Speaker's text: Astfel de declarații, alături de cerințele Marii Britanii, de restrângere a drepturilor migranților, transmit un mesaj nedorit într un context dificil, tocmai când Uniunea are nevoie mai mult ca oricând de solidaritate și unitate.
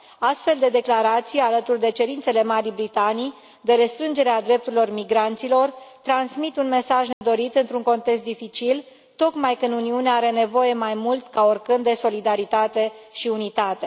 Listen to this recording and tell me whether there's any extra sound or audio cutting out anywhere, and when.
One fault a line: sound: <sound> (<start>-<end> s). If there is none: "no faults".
sound: dropout (7.1-7.2 s)